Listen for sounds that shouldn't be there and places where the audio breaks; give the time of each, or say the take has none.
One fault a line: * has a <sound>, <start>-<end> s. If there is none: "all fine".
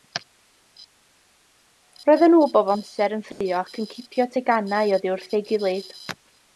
* has a dropout, 3.3-3.4 s